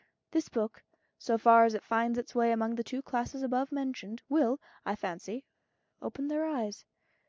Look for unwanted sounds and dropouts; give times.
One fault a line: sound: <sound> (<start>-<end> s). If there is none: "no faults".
no faults